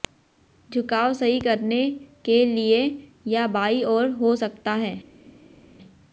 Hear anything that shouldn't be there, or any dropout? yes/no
no